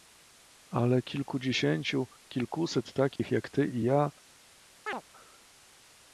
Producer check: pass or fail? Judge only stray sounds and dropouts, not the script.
fail